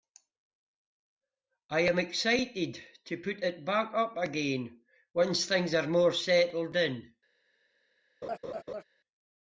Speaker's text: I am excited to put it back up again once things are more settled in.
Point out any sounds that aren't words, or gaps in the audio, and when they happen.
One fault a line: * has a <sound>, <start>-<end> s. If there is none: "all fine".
* has a laugh, 8.2-8.8 s